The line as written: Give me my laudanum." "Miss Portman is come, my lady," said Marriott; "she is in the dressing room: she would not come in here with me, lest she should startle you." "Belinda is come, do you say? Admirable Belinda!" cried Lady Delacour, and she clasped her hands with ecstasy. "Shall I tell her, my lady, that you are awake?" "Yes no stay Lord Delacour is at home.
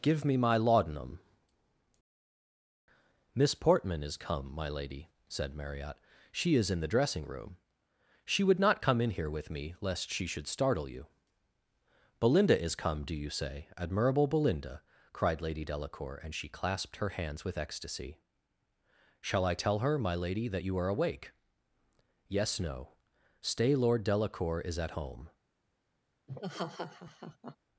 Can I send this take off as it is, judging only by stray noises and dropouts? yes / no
no